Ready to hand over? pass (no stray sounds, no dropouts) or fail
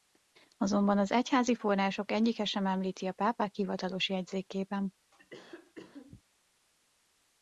fail